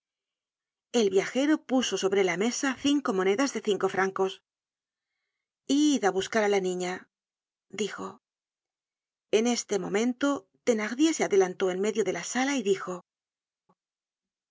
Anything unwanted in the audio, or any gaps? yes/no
no